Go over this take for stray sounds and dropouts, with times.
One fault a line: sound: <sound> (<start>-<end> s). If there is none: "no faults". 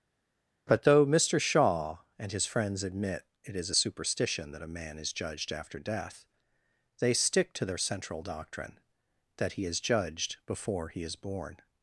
no faults